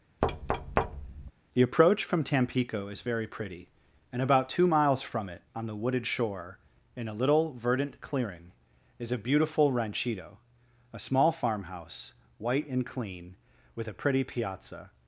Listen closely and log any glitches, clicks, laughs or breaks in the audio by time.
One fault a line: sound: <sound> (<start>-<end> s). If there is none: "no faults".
sound: thud (0.2-1.3 s)